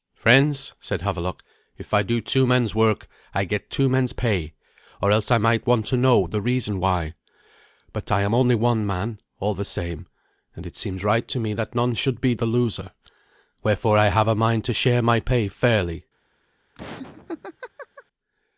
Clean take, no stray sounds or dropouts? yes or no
no